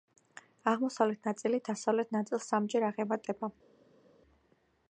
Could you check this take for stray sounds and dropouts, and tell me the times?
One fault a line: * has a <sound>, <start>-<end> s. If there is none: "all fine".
all fine